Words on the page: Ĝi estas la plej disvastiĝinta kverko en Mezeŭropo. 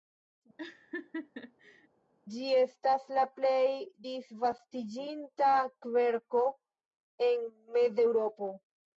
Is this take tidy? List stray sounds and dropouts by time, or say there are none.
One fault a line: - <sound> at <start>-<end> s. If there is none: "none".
- laugh at 0.6-1.9 s